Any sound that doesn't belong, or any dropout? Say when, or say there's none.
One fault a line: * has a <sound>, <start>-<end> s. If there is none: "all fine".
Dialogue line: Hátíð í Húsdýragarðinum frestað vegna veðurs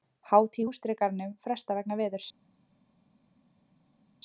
all fine